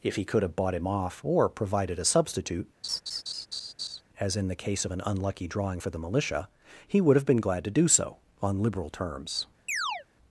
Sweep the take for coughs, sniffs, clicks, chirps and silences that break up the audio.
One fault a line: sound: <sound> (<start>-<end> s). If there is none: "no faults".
sound: laugh (2.8-4.0 s)
sound: chirp (9.7-10.1 s)